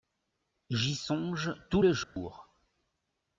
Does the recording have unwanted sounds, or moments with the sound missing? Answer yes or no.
yes